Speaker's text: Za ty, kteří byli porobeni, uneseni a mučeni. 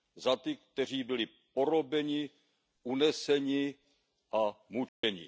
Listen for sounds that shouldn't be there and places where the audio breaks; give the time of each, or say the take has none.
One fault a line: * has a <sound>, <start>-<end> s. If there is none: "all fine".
* has a dropout, 4.9-5.0 s